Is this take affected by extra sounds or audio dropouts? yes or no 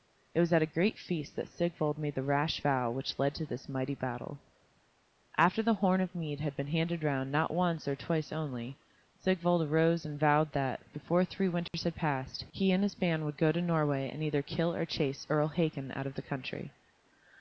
yes